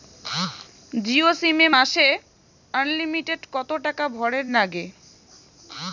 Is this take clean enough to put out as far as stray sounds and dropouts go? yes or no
yes